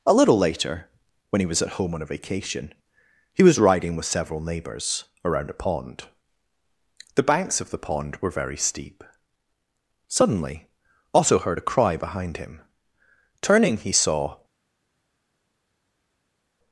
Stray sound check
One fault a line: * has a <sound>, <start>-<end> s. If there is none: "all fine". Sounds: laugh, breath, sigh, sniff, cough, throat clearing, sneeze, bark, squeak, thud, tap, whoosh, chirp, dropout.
all fine